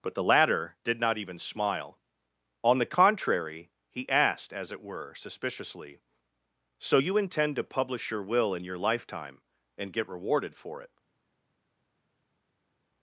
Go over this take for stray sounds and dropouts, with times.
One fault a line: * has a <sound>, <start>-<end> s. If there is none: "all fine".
all fine